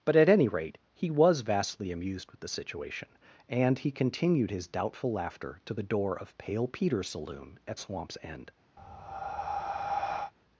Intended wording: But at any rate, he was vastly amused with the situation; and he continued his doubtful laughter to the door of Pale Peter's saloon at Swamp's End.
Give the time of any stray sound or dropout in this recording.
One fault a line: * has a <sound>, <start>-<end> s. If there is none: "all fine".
* has a breath, 8.8-10.3 s